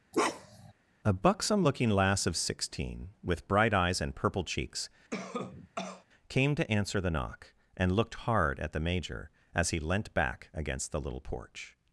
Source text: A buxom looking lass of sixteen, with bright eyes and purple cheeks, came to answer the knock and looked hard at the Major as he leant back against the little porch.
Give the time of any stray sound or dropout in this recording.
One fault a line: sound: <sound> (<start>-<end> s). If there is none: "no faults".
sound: bark (0.1-0.7 s)
sound: cough (5.1-6.0 s)